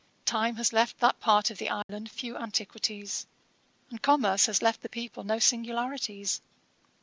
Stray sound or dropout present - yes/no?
yes